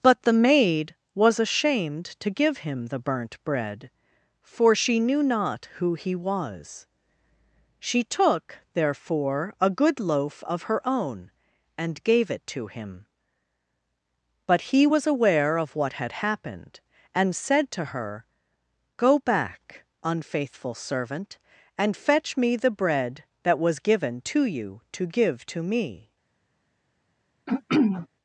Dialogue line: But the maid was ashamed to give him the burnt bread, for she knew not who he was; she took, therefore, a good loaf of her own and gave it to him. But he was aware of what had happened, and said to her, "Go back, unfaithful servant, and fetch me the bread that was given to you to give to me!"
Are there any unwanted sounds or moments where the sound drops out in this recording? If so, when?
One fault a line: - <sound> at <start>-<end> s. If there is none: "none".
- throat clearing at 27.5-28.1 s